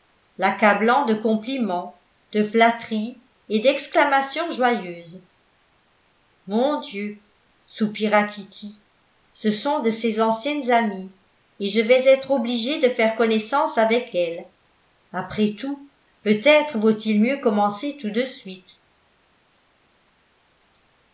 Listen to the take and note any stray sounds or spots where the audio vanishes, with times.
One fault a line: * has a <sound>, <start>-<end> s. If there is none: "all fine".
all fine